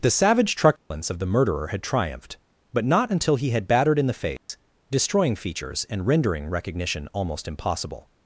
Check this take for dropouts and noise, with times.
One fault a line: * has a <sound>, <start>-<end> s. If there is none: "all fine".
* has a dropout, 0.8-0.9 s
* has a dropout, 4.4-4.5 s